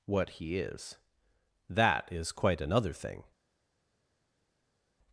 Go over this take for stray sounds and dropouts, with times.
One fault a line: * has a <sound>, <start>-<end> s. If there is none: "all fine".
all fine